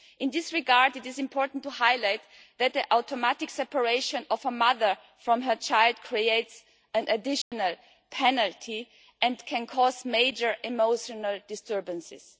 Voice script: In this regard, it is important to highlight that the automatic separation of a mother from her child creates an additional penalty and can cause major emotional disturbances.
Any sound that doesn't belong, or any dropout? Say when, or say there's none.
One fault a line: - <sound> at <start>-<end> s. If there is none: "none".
- dropout at 7.4-7.5 s